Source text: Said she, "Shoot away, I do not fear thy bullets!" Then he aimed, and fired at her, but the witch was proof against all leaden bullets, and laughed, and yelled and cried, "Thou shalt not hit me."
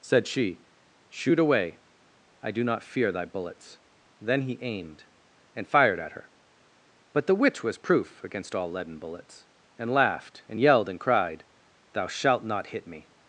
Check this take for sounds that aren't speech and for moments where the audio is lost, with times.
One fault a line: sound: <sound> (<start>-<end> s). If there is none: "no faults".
no faults